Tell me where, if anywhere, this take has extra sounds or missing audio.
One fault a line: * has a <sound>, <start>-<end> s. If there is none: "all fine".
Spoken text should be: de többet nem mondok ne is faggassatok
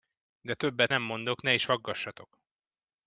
all fine